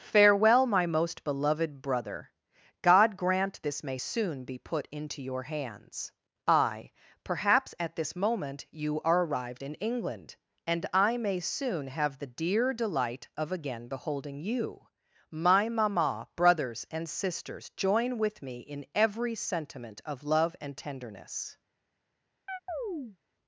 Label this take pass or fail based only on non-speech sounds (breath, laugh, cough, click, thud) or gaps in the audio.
fail